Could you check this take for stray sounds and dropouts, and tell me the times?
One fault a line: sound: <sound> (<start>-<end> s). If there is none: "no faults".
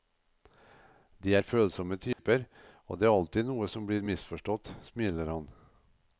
sound: dropout (2.1-2.2 s)